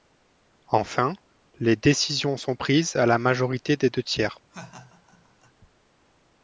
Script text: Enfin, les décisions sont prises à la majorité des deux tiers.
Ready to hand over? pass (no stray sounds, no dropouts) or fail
fail